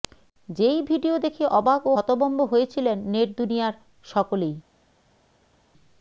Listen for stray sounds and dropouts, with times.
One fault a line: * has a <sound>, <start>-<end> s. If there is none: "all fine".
all fine